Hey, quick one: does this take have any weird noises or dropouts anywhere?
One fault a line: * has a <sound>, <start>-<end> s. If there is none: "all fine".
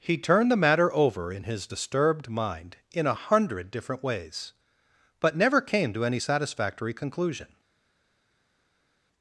all fine